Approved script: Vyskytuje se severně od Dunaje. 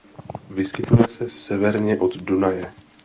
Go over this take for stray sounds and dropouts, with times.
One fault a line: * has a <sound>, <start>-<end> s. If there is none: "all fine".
all fine